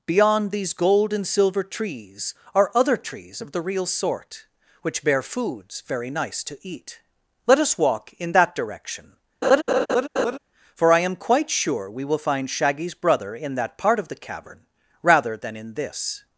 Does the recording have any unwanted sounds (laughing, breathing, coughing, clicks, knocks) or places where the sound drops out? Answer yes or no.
yes